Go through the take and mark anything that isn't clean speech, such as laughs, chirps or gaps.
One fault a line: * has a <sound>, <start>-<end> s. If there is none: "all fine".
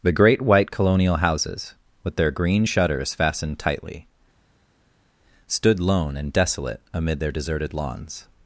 all fine